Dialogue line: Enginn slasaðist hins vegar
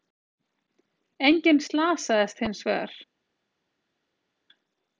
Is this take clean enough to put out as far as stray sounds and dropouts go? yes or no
yes